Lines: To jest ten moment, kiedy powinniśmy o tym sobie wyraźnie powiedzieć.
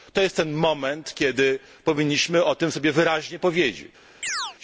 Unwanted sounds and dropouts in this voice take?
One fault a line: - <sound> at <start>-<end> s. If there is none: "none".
- chirp at 4.2-4.6 s